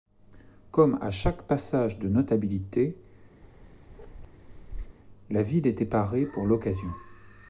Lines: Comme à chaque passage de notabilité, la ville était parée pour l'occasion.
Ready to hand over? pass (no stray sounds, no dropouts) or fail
fail